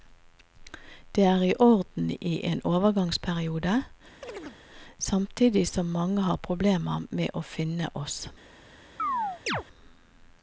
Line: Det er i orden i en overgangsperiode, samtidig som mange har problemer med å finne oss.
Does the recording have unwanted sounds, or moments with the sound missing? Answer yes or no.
yes